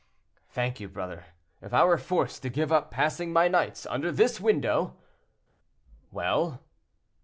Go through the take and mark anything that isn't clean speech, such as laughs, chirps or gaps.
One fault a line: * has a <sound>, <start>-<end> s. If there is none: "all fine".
all fine